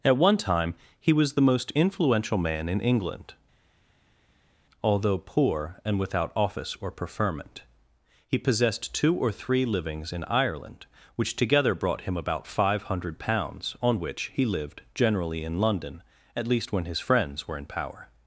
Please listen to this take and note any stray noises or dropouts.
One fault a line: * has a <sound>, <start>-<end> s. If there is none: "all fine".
all fine